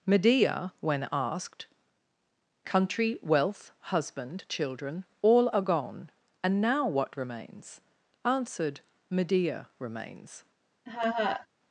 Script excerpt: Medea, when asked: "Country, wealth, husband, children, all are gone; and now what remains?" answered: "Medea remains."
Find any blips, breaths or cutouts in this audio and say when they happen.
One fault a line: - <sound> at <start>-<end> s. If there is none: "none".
- laugh at 10.9-11.5 s